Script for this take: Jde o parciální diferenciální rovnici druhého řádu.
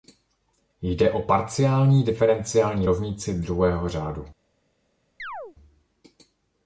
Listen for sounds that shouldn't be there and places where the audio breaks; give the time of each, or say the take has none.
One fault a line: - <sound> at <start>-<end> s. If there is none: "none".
- chirp at 5.2-5.6 s